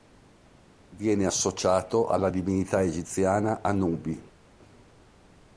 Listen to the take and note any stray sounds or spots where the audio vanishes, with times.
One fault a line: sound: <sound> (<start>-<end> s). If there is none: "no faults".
no faults